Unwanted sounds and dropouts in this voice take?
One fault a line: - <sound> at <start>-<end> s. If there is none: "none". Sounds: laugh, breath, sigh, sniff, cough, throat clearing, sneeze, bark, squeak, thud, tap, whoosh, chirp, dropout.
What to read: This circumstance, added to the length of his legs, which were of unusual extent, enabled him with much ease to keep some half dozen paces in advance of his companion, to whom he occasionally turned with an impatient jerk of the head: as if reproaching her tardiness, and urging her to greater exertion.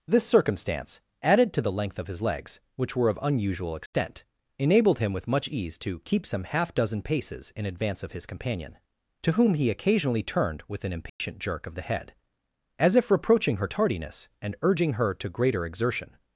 - dropout at 3.9-3.9 s
- dropout at 11.1-11.2 s